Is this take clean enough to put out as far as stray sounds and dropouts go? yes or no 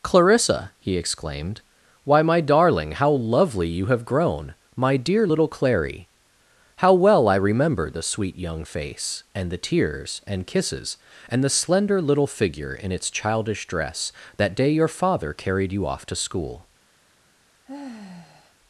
no